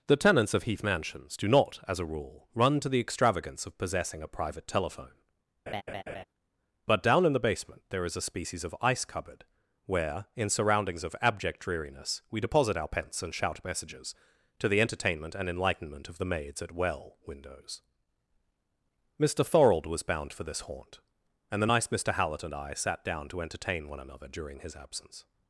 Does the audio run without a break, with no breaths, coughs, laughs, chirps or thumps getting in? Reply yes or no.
no